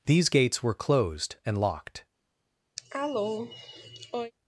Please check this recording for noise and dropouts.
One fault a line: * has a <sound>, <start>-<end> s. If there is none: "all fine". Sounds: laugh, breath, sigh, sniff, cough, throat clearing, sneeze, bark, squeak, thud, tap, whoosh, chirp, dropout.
* has a cough, 2.8-4.3 s